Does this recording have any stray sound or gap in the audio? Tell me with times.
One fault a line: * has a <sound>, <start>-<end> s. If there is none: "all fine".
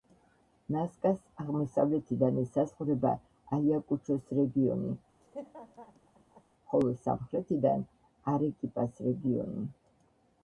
* has a laugh, 5.2-6.4 s